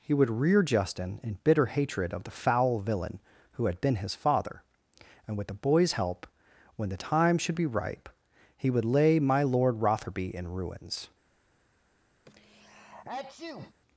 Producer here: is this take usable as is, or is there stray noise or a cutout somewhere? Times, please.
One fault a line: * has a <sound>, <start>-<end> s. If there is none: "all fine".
* has a sneeze, 12.3-13.7 s